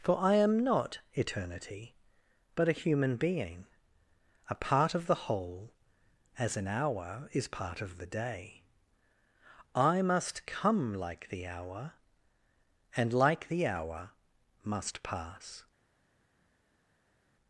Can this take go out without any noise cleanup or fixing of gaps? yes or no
yes